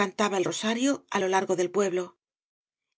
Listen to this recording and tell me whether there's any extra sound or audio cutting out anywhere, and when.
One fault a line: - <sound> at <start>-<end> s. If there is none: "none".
none